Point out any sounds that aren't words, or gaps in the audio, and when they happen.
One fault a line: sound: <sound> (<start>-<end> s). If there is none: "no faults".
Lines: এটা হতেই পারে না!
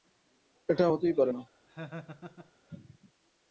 sound: laugh (1.7-2.5 s)